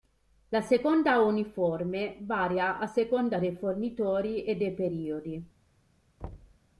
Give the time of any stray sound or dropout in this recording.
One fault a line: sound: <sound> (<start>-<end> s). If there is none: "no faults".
sound: thud (6.2-6.6 s)